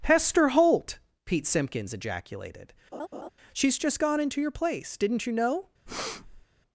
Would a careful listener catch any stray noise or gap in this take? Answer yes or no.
yes